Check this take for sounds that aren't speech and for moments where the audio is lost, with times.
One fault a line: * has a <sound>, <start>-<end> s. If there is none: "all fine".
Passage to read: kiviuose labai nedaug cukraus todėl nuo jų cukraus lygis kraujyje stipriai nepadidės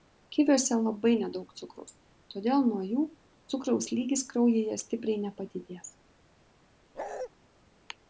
* has a bark, 6.9-7.3 s